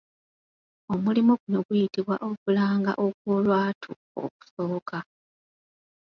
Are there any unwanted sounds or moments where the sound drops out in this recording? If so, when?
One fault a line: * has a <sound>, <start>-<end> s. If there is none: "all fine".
all fine